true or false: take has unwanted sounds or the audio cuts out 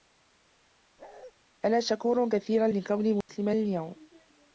true